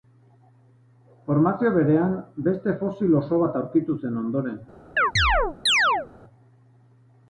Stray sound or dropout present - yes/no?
yes